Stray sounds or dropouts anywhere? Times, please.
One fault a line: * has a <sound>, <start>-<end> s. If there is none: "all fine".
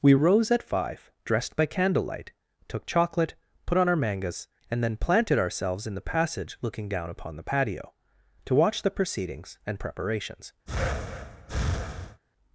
* has a breath, 10.7-12.2 s